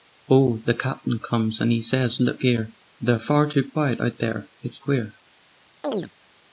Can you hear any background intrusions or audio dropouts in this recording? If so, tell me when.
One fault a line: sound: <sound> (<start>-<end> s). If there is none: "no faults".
sound: chirp (5.8-6.1 s)